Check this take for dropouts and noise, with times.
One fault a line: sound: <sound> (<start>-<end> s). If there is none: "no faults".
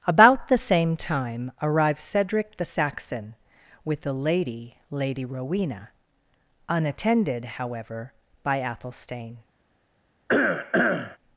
sound: cough (10.3-11.2 s)